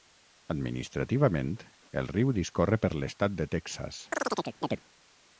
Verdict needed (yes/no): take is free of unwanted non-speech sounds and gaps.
no